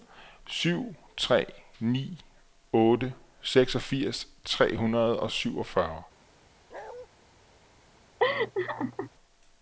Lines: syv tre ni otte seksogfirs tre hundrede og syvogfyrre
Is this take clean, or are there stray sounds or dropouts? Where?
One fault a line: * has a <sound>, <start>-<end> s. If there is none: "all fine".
* has a bark, 6.7-7.1 s
* has a laugh, 8.2-9.1 s